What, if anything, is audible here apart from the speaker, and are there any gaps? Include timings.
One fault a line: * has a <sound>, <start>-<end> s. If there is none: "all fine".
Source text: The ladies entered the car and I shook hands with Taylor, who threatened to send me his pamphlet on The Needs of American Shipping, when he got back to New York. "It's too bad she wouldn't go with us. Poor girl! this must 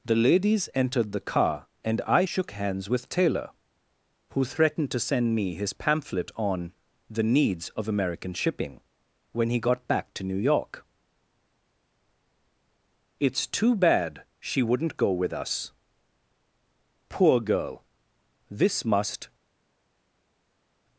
all fine